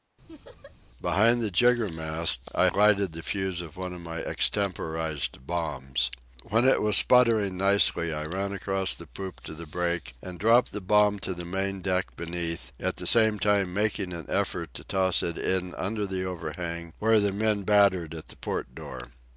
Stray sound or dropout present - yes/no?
yes